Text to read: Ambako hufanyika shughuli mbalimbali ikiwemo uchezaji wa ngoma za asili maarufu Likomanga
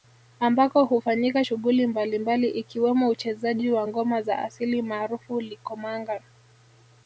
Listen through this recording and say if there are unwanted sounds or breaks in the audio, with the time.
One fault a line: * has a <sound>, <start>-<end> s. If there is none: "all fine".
all fine